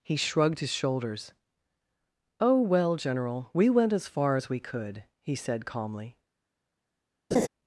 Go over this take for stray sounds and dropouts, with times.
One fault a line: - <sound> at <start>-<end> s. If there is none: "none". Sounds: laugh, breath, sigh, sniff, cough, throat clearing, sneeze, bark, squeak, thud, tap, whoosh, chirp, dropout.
- laugh at 7.3-7.5 s